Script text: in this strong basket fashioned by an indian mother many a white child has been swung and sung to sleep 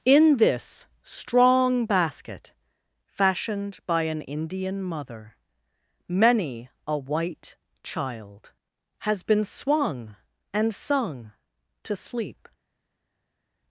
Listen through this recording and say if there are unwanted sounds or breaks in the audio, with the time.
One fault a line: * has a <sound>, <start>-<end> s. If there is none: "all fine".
all fine